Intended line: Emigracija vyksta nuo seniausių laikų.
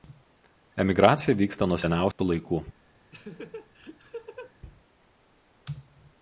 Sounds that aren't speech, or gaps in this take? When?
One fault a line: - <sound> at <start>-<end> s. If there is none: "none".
- dropout at 2.1-2.2 s
- laugh at 3.1-4.5 s